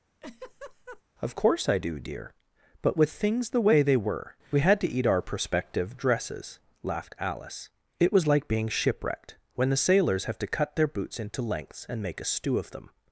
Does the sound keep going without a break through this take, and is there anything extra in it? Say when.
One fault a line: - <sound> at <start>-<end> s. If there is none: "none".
- laugh at 0.2-1.0 s